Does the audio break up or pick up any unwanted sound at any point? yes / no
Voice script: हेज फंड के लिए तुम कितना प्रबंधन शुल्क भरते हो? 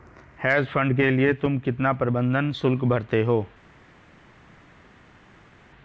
no